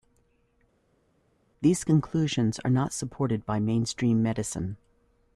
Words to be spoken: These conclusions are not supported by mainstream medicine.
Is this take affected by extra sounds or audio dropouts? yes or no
no